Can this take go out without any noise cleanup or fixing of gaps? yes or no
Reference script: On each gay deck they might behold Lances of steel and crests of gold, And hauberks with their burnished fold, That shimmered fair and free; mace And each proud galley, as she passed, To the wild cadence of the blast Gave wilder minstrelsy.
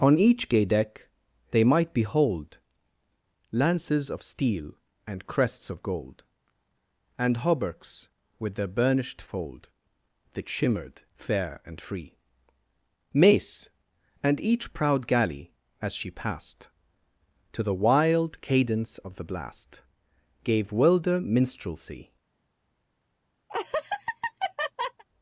no